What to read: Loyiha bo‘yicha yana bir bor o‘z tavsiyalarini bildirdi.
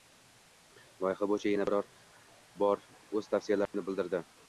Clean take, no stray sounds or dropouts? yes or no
no